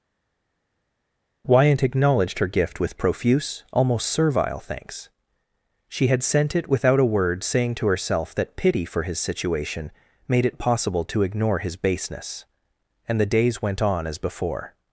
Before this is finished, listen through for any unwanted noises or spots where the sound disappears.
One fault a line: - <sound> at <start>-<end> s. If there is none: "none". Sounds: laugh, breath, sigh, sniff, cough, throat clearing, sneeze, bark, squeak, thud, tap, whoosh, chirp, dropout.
none